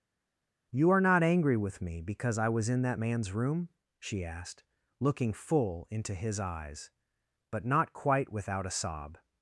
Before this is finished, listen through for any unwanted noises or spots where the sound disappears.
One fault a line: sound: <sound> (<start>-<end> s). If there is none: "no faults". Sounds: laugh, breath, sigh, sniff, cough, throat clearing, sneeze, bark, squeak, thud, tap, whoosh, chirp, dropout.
no faults